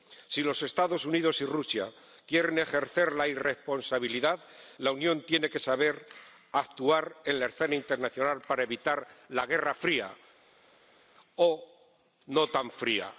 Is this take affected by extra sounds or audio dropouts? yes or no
no